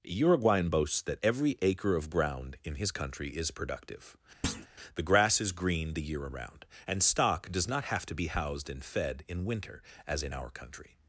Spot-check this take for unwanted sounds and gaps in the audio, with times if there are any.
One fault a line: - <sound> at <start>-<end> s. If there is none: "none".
- thud at 4.4-4.7 s